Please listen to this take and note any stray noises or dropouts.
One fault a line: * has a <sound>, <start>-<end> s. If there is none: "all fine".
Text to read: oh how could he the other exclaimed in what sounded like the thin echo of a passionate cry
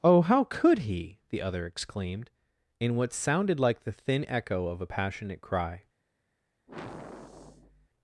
* has a sigh, 6.7-7.9 s